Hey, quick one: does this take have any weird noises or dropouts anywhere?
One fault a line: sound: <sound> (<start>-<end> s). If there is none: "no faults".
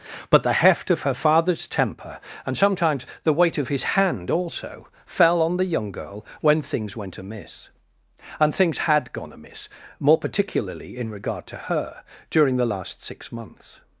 no faults